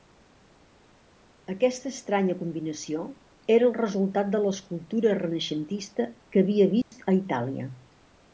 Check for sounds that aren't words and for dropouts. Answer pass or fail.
fail